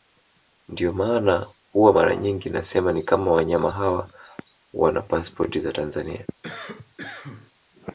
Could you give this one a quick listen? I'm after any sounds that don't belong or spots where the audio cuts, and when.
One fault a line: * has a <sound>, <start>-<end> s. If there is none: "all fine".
* has a cough, 6.4-7.5 s